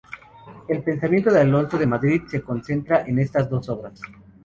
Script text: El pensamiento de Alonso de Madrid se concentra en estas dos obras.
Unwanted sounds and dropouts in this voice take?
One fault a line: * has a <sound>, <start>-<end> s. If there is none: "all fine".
all fine